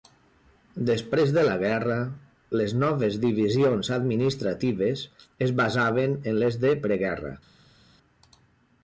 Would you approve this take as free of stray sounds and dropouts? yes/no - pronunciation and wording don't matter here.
yes